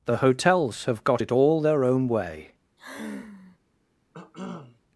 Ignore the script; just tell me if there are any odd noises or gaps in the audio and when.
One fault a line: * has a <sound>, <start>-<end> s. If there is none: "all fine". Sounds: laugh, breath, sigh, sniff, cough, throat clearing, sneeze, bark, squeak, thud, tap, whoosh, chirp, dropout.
* has a sigh, 2.8-3.6 s
* has a cough, 4.1-4.8 s